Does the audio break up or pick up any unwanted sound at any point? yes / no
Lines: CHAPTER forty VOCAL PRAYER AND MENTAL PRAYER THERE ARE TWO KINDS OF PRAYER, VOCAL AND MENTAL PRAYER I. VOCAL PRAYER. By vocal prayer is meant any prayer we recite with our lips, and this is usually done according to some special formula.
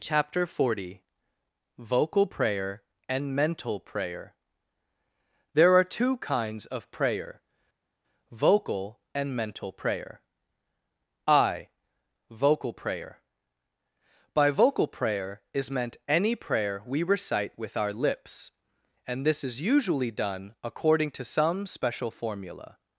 no